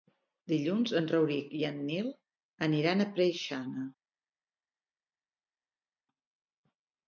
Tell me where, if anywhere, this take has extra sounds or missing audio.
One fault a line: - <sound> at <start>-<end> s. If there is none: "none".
none